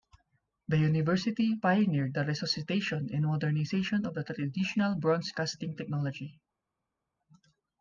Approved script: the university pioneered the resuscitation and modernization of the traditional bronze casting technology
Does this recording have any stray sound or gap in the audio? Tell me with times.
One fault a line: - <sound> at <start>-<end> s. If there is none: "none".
none